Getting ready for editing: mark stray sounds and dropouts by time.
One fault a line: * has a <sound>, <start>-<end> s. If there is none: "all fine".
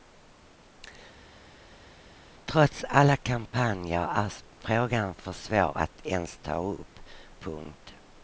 all fine